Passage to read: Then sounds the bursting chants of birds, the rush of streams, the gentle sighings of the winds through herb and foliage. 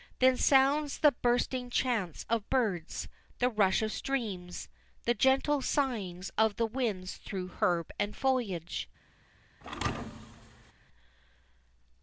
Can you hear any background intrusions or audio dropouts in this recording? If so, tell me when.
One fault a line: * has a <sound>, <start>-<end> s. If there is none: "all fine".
* has a thud, 9.6-10.7 s